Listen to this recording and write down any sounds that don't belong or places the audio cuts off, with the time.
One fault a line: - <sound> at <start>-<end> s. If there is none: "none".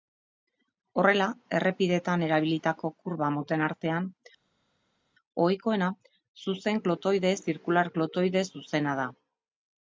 none